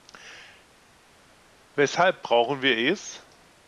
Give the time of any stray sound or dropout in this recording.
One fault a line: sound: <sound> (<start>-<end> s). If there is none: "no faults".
no faults